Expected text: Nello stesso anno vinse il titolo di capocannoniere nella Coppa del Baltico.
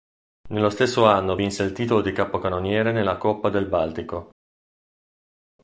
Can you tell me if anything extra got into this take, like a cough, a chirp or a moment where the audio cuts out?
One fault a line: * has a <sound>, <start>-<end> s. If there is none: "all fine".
all fine